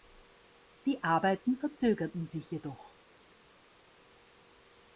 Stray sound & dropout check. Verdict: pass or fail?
pass